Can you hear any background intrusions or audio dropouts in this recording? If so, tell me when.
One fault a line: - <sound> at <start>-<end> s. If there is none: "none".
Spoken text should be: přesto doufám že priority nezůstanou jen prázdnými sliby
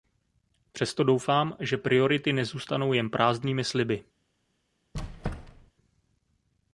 - squeak at 4.9-5.7 s